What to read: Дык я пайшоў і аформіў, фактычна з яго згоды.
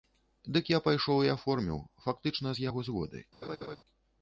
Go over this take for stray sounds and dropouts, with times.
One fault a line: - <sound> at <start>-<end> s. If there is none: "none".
- laugh at 3.4-3.8 s